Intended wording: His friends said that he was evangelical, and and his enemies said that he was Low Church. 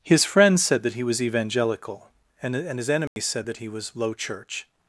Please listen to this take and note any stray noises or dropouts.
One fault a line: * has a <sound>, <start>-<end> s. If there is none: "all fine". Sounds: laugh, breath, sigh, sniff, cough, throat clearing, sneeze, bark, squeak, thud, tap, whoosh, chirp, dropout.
* has a dropout, 3.1-3.2 s